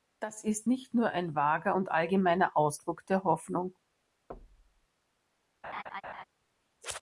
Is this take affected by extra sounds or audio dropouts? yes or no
yes